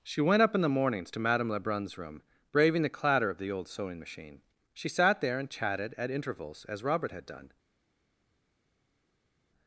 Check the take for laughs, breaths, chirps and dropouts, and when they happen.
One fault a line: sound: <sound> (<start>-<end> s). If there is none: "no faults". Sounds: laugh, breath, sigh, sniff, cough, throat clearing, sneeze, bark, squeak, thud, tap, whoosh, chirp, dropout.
no faults